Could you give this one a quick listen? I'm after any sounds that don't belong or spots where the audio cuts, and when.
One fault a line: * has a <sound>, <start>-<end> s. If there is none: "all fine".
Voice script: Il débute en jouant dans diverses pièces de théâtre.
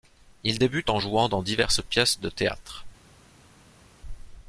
all fine